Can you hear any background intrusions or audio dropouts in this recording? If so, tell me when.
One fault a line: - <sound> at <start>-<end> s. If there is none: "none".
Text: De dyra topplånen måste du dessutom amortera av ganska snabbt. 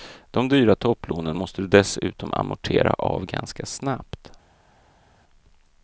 none